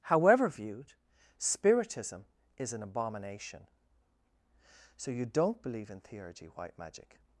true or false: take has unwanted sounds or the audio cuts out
false